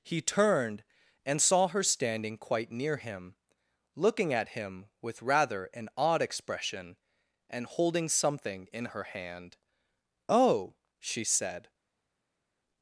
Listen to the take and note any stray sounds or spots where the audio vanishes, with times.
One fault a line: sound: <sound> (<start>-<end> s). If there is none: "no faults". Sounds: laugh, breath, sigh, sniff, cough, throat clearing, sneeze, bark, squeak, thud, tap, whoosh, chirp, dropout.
no faults